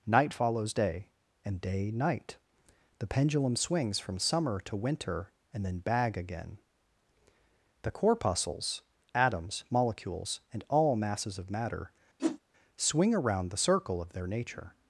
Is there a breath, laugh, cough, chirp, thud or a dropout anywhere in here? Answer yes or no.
yes